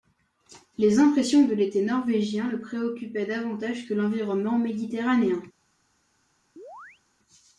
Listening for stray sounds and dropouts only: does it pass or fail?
fail